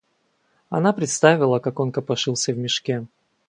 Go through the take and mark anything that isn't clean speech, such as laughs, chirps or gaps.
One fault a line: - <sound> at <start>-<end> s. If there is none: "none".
none